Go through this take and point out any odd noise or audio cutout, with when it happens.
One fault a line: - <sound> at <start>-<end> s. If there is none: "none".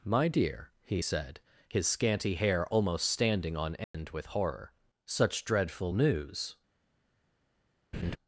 - dropout at 3.8-3.9 s
- laugh at 7.9-8.2 s